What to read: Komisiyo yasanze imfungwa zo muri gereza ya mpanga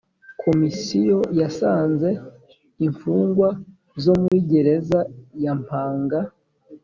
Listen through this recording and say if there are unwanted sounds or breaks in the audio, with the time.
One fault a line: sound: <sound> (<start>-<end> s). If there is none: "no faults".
sound: dropout (4.3-4.3 s)